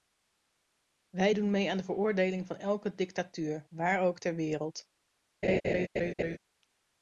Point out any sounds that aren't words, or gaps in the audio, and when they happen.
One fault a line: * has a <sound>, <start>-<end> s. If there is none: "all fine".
* has a laugh, 5.4-6.4 s